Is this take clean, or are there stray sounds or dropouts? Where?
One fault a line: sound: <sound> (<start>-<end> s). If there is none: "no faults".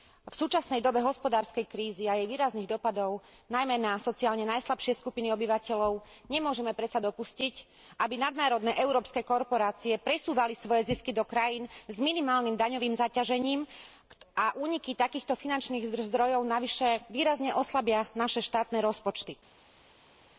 no faults